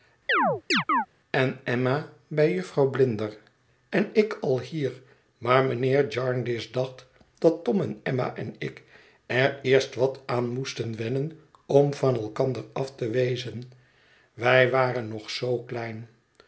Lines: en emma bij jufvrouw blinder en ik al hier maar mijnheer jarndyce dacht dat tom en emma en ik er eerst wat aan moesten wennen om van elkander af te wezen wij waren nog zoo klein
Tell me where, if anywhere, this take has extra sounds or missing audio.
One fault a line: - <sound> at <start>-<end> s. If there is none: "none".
- chirp at 0.3-1.1 s